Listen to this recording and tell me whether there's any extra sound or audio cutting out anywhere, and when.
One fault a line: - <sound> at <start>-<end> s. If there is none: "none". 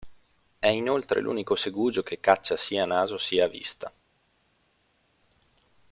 none